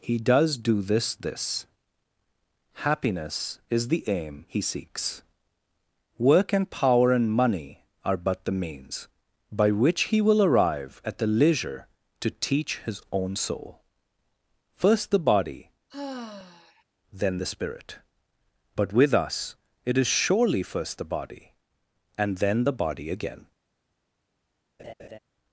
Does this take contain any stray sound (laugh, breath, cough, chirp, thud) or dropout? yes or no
yes